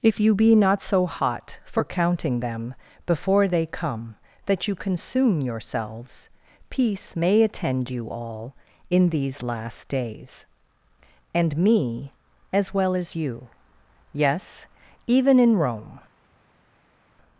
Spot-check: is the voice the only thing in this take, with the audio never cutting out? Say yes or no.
yes